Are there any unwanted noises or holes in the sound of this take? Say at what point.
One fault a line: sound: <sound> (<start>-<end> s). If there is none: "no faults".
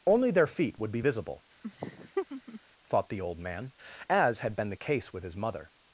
sound: laugh (1.6-2.6 s)